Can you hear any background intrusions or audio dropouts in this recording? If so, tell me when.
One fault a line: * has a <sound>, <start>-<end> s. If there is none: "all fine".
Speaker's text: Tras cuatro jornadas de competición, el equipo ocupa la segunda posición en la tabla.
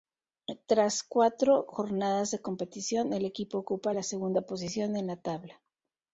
all fine